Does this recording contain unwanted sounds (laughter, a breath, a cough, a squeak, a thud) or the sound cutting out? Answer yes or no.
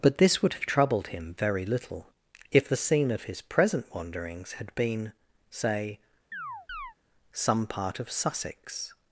yes